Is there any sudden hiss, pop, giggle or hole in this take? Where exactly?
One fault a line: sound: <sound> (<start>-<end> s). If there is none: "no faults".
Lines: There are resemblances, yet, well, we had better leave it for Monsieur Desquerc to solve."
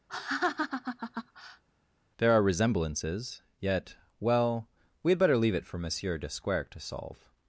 sound: laugh (0.1-1.6 s)